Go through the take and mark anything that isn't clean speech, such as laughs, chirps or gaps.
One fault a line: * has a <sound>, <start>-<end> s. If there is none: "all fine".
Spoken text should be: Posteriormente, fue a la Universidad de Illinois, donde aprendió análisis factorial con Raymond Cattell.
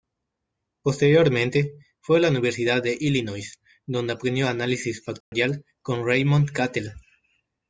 * has a dropout, 5.2-5.3 s